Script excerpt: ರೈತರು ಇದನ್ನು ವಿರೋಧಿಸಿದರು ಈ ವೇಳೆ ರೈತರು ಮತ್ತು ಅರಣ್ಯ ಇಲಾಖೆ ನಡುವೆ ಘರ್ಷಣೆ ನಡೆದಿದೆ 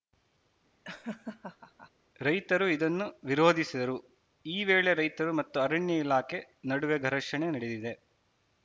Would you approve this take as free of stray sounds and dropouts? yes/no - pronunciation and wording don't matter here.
no